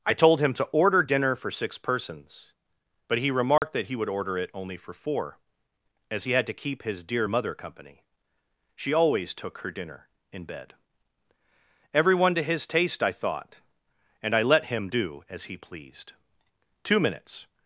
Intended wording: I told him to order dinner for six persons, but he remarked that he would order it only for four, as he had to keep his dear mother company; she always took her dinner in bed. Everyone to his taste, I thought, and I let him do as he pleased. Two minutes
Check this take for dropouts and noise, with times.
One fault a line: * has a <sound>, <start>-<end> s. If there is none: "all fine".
* has a dropout, 3.6-3.6 s